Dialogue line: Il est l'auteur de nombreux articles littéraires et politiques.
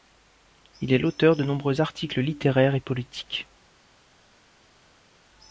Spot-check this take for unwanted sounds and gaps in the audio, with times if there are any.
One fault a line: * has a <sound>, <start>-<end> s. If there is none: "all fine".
all fine